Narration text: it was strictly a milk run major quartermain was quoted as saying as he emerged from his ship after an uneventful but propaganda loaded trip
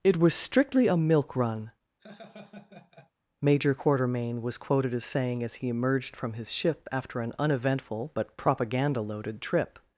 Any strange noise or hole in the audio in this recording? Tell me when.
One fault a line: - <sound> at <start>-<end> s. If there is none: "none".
- laugh at 2.0-3.1 s